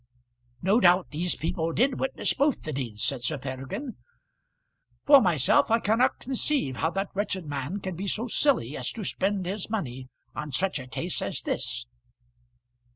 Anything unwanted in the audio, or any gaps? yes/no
no